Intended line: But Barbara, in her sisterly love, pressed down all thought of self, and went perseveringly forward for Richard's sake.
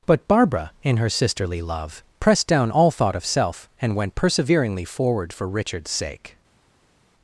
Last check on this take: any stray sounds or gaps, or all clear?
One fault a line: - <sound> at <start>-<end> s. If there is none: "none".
none